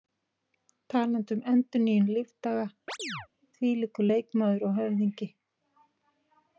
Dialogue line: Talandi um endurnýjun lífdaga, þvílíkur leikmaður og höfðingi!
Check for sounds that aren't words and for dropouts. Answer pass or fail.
fail